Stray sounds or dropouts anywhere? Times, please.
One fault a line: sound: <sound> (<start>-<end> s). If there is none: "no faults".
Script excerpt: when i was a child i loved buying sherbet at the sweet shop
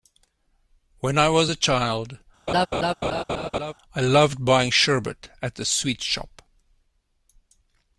sound: laugh (2.5-3.7 s)